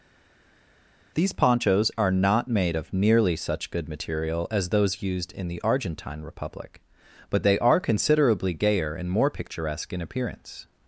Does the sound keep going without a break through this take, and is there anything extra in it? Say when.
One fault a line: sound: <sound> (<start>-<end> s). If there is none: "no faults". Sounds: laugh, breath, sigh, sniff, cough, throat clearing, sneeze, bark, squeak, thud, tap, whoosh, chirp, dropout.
no faults